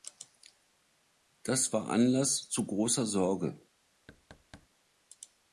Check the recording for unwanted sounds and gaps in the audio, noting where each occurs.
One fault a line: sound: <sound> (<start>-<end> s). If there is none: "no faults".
sound: thud (4.1-4.7 s)